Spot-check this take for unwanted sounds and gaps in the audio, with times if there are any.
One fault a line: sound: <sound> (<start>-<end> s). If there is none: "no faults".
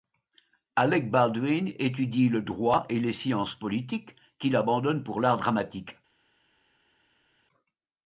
no faults